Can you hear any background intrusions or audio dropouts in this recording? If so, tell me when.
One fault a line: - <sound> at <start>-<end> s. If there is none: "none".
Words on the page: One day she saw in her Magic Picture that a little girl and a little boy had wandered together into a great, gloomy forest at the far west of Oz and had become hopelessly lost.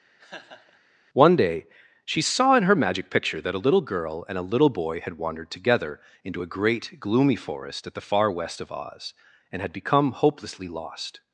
- laugh at 0.2-0.8 s